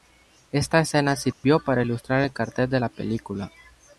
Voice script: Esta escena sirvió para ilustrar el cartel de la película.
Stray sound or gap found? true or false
true